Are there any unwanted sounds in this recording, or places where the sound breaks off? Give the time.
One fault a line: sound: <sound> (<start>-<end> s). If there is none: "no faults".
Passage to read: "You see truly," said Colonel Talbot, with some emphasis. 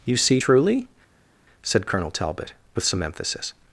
no faults